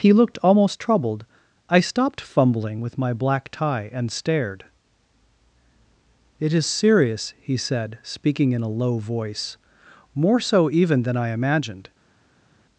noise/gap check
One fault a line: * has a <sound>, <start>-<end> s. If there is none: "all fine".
all fine